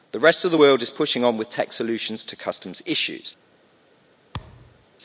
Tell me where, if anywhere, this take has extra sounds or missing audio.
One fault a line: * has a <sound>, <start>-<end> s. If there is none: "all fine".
* has a thud, 4.3-4.9 s